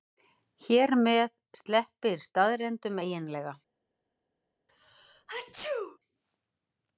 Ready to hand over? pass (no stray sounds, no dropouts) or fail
fail